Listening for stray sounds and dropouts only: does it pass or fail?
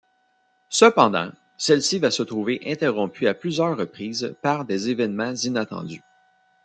pass